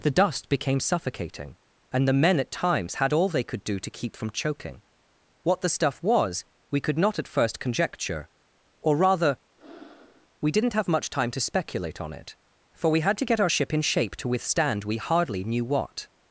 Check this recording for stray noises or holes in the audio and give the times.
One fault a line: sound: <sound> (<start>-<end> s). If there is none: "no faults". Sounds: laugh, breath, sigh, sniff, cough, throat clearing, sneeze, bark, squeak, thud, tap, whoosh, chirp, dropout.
sound: breath (9.6-10.3 s)